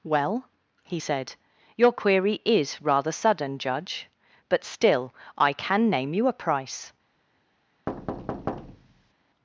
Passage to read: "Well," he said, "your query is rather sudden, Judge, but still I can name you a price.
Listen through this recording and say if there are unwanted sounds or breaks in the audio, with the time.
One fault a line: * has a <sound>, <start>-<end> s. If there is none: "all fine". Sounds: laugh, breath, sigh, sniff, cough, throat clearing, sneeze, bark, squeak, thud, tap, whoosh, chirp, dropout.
* has a thud, 7.9-9.1 s